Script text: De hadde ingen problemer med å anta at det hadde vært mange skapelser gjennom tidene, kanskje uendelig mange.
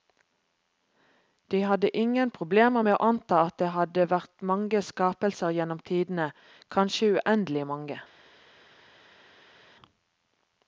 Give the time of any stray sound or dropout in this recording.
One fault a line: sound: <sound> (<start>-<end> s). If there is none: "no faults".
no faults